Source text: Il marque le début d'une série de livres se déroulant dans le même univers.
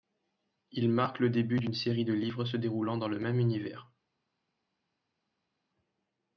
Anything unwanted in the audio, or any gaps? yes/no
no